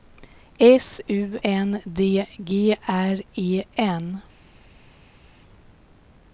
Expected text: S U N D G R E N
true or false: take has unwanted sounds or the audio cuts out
false